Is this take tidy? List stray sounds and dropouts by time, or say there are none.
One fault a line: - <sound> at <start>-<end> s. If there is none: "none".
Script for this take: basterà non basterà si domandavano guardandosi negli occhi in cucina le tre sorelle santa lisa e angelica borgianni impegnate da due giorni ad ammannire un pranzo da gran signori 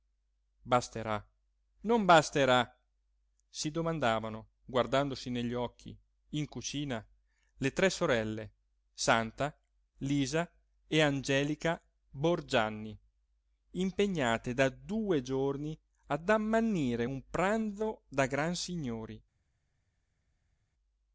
none